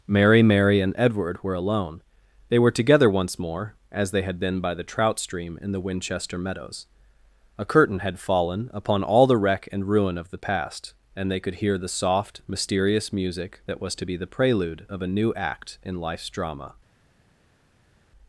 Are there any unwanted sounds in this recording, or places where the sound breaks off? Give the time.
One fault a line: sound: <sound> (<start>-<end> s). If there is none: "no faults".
no faults